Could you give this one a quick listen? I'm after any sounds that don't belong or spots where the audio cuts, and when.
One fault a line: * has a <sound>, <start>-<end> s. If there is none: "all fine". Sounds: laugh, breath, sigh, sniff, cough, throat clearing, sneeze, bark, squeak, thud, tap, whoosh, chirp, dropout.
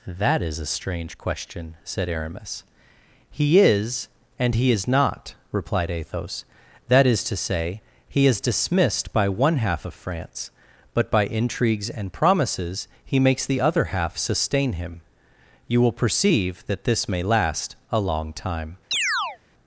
* has a chirp, 18.9-19.4 s